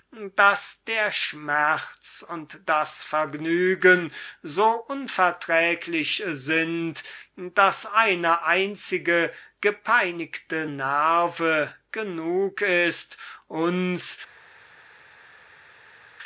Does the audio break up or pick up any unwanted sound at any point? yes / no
no